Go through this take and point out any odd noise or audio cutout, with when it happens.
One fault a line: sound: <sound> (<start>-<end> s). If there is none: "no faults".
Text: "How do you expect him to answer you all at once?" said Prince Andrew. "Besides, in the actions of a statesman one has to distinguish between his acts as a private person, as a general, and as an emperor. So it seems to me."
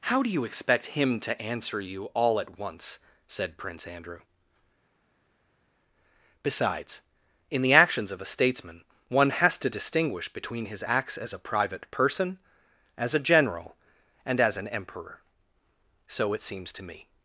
no faults